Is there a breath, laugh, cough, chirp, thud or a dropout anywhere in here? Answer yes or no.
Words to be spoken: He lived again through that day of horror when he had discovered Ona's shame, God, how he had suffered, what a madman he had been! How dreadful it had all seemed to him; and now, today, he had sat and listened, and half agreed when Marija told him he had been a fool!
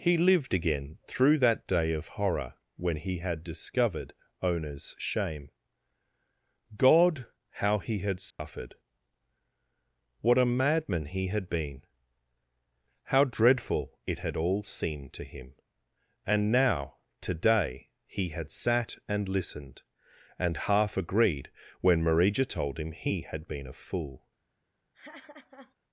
yes